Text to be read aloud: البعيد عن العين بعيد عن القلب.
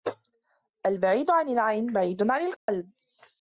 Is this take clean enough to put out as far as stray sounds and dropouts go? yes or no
no